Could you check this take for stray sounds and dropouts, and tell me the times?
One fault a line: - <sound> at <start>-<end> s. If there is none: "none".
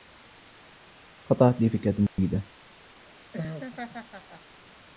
- dropout at 2.1-2.2 s
- laugh at 3.0-4.6 s